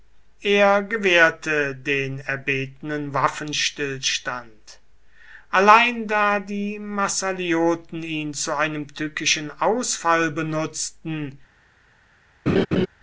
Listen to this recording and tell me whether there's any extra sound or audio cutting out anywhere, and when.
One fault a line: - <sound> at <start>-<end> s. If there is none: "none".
- laugh at 12.5-12.9 s